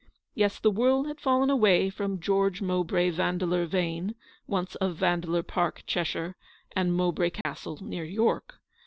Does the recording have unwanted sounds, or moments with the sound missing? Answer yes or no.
yes